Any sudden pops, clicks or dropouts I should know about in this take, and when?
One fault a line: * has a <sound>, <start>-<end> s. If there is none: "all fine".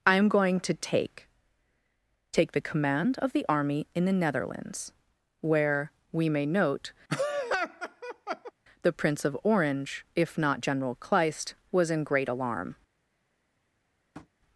* has a laugh, 7.1-8.5 s
* has a tap, 14.1-14.3 s